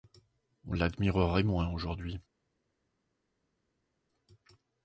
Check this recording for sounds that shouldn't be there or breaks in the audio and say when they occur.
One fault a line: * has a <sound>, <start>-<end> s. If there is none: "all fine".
all fine